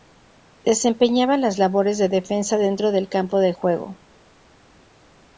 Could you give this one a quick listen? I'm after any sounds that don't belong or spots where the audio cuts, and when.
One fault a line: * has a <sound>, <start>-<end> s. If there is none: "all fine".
all fine